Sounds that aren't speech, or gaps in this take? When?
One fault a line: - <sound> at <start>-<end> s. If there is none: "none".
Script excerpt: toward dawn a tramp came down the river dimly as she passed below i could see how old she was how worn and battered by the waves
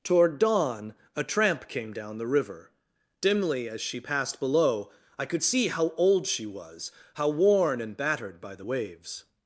none